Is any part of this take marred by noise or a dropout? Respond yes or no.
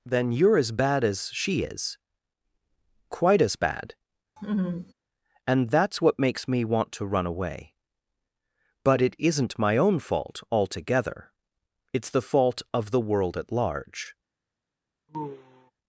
yes